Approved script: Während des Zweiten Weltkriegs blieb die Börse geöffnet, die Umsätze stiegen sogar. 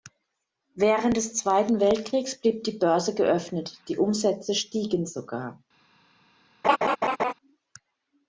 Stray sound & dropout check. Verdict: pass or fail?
fail